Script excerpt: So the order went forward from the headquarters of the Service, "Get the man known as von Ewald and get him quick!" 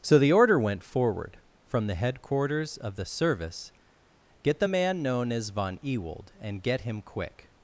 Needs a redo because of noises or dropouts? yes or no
no